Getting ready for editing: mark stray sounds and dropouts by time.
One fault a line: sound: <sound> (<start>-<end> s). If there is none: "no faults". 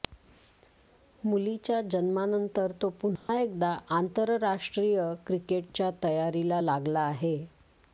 sound: dropout (3.2-3.3 s)